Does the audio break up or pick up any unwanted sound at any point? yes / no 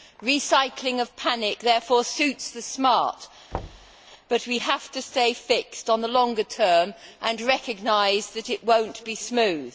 yes